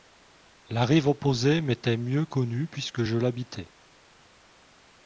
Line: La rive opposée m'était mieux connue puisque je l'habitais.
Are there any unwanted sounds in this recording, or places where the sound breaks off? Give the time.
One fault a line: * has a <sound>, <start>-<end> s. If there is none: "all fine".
all fine